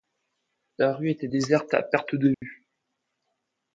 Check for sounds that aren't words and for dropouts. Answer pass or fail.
fail